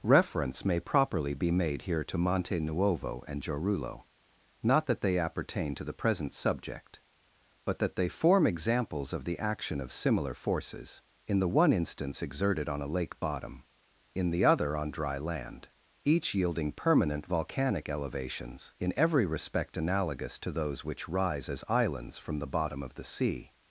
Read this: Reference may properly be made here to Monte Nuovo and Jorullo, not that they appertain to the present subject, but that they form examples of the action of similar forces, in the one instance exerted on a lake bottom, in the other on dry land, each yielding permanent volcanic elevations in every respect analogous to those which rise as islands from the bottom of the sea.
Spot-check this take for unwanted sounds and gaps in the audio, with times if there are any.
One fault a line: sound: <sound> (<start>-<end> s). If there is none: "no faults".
no faults